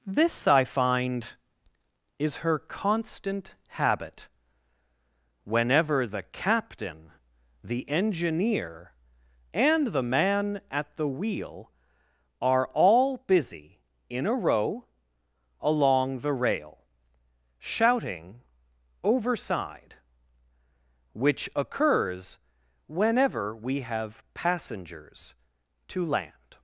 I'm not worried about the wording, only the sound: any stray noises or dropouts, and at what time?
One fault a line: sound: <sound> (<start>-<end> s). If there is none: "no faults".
no faults